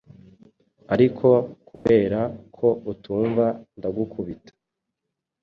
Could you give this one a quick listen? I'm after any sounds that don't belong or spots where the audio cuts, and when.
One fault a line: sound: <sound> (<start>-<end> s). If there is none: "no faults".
sound: dropout (1.8-1.9 s)